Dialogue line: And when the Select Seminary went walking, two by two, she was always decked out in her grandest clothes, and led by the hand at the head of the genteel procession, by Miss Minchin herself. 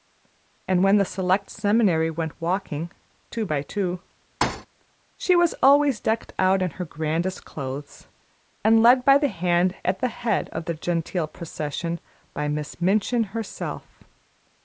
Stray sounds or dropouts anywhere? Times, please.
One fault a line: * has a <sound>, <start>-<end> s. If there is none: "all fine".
* has a thud, 4.4-4.7 s